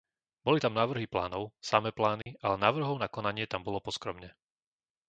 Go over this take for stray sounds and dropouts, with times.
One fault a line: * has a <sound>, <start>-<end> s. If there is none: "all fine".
* has a dropout, 2.2-2.3 s